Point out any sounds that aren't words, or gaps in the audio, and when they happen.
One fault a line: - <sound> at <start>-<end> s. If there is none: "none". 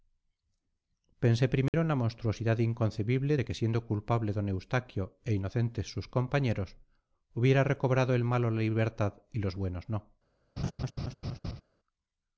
- dropout at 1.7-1.7 s
- laugh at 10.6-11.6 s